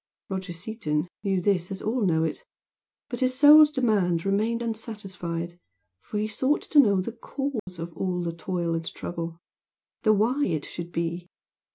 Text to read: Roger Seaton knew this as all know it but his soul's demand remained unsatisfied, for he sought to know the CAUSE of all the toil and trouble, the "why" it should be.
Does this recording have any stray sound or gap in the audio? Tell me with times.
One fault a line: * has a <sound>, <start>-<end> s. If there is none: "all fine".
* has a dropout, 7.6-7.7 s